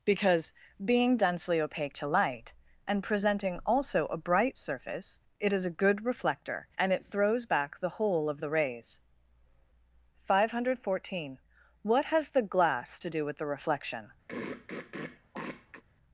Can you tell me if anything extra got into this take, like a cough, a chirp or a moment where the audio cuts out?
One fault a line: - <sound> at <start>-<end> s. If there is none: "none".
- throat clearing at 14.3-15.8 s